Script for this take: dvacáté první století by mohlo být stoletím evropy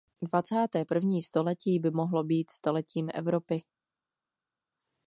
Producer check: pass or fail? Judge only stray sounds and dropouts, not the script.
pass